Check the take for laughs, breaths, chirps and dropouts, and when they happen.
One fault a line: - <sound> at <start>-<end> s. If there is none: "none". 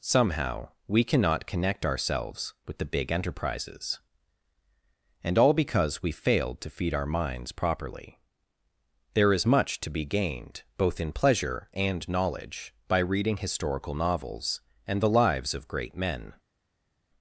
none